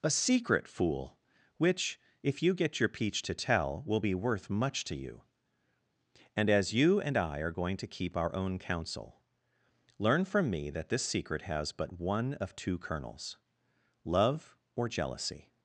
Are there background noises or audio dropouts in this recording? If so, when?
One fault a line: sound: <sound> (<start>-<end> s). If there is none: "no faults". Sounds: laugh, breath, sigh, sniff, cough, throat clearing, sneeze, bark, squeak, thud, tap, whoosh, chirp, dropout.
no faults